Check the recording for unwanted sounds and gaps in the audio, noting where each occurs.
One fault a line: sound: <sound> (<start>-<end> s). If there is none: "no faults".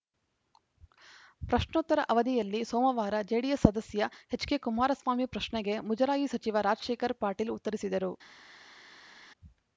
no faults